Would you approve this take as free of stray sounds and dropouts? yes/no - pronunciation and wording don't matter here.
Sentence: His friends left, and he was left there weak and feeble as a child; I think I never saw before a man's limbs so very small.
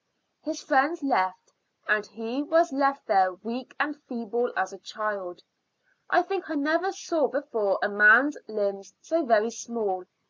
yes